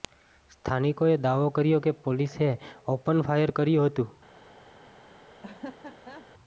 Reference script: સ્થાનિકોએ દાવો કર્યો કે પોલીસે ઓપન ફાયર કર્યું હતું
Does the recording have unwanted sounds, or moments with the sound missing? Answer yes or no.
yes